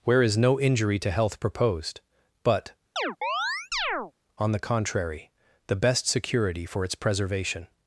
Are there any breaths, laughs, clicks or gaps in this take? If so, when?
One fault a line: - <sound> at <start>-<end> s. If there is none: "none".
- chirp at 3.0-4.1 s